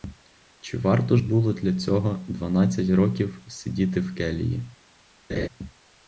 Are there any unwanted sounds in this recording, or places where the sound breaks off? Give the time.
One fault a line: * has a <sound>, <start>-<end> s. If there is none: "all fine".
* has a laugh, 5.3-5.5 s